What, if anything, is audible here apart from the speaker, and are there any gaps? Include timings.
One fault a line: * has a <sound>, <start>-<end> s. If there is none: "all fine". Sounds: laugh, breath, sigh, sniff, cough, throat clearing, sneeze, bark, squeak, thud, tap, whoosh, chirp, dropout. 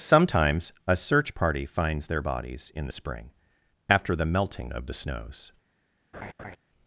* has a laugh, 6.1-6.6 s